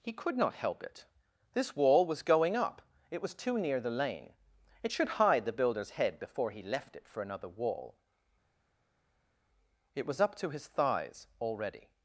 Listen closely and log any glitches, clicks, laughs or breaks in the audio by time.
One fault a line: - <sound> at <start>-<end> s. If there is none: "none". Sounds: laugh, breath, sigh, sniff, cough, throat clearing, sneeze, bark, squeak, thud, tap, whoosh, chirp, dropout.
none